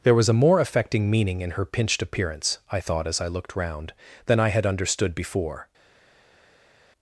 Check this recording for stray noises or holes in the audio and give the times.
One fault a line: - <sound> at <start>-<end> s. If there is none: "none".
none